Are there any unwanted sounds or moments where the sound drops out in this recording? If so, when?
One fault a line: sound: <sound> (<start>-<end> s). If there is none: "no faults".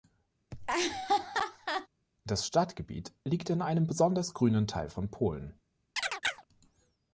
sound: laugh (0.5-1.9 s)
sound: chirp (6.0-6.4 s)